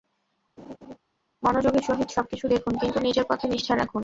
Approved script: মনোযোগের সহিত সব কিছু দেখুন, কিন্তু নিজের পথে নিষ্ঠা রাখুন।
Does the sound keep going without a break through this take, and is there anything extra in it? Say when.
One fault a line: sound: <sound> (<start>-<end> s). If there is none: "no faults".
sound: laugh (0.6-1.0 s)